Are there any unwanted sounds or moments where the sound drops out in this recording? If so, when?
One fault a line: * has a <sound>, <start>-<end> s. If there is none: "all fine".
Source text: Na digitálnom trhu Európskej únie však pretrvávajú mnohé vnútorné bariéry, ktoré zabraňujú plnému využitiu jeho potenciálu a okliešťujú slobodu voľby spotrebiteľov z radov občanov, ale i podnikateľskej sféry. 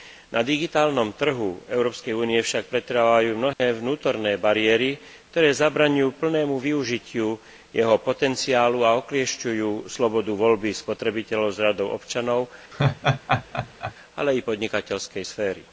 * has a dropout, 3.5-3.6 s
* has a laugh, 12.7-13.9 s